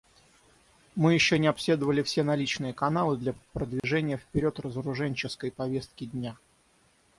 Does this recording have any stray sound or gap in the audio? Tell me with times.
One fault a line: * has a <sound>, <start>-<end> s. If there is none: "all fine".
* has a dropout, 3.8-3.8 s